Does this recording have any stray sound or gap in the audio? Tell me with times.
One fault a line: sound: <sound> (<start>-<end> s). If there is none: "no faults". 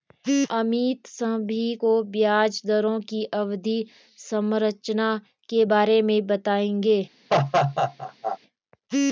sound: laugh (7.3-8.4 s)